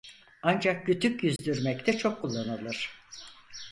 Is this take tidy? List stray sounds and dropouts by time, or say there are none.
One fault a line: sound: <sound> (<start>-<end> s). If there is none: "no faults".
sound: dropout (1.4-1.4 s)